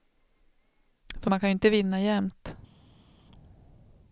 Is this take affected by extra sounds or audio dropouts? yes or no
no